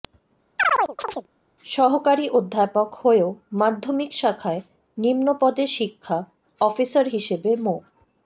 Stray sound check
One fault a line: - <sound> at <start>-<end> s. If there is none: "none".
- chirp at 0.6-1.3 s